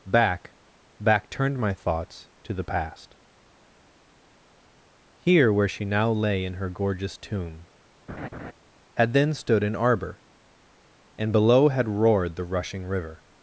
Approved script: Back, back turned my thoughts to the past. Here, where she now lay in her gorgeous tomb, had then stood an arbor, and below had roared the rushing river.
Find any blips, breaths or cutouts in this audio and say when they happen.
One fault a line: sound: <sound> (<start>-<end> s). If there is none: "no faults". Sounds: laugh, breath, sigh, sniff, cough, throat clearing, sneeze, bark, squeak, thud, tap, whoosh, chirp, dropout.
sound: laugh (8.1-8.5 s)